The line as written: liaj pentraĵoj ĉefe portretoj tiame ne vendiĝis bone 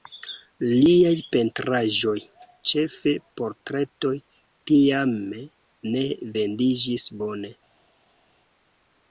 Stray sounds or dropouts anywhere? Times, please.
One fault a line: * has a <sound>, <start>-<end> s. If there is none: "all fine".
all fine